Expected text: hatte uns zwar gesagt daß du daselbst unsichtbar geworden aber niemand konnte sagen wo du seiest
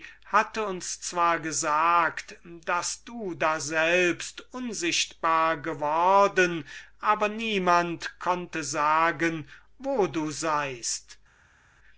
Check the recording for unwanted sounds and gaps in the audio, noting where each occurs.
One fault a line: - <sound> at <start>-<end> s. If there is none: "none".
none